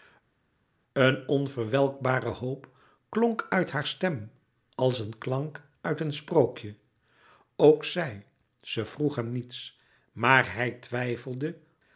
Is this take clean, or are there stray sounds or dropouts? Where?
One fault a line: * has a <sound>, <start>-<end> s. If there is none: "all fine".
all fine